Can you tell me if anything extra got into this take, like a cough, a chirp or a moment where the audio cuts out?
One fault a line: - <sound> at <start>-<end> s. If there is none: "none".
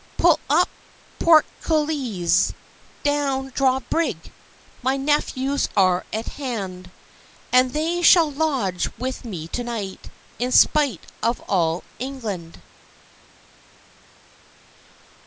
none